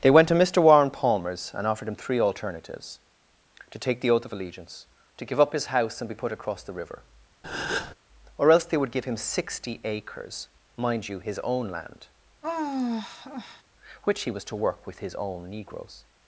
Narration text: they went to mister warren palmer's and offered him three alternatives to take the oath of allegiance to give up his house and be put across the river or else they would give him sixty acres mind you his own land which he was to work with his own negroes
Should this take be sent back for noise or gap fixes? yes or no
yes